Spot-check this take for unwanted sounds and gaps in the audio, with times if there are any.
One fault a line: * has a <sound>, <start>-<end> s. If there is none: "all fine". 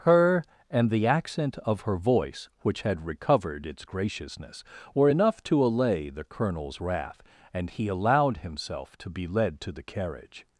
all fine